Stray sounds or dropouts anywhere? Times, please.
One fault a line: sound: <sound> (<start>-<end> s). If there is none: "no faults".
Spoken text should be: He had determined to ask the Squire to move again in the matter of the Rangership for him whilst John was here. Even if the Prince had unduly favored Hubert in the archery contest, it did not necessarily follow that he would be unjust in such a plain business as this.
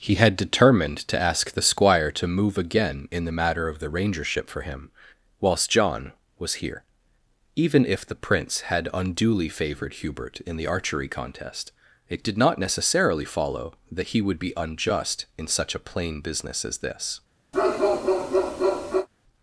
sound: bark (17.5-19.1 s)